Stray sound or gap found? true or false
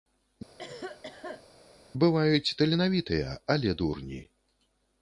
true